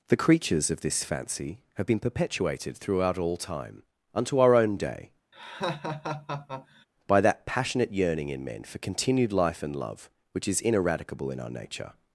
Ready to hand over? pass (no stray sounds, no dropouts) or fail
fail